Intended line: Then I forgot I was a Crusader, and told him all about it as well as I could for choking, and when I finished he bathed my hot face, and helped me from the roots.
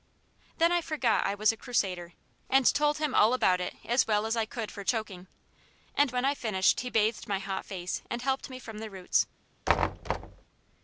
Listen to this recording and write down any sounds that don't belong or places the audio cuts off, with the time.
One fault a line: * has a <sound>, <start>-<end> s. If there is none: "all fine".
* has a thud, 9.7-10.4 s